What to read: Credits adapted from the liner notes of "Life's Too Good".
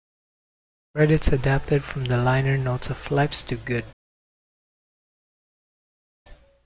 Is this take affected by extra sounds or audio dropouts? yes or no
no